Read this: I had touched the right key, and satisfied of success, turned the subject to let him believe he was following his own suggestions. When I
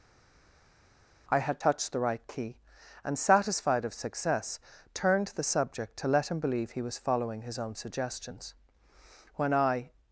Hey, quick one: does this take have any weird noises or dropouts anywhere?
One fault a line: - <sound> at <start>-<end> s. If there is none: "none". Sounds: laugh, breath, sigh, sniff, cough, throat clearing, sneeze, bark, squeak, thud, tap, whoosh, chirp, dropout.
none